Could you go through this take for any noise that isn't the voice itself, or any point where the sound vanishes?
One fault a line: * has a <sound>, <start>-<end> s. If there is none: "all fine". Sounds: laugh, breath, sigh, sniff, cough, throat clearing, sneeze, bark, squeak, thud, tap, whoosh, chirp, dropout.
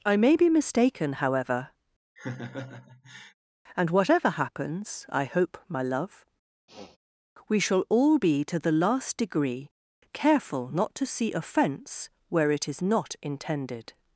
* has a laugh, 2.2-3.3 s
* has a sniff, 6.7-7.0 s